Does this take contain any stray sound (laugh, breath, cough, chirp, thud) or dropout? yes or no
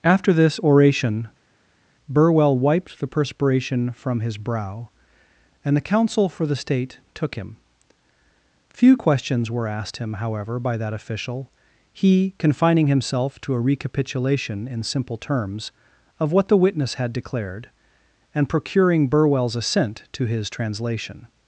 no